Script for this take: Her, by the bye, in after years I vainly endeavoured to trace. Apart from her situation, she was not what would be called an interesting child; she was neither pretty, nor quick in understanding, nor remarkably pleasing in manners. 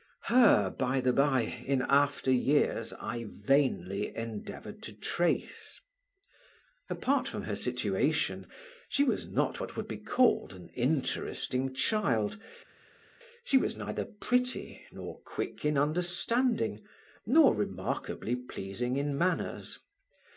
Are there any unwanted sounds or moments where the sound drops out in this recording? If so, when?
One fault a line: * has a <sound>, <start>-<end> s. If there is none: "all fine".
all fine